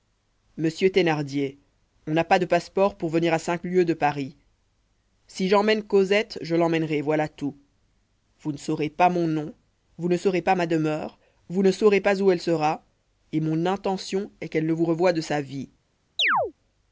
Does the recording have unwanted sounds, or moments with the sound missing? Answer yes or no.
yes